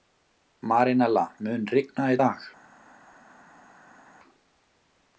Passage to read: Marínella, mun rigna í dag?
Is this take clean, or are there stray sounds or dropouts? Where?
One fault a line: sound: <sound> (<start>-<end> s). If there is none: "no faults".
no faults